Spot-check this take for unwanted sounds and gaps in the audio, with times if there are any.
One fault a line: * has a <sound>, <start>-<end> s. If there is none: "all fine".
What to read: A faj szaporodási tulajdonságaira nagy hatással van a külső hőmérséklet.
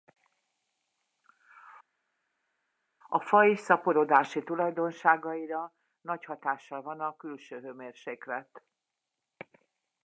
all fine